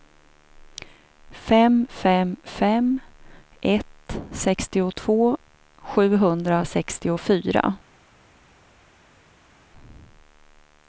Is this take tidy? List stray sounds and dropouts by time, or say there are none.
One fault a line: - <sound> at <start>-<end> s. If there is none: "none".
none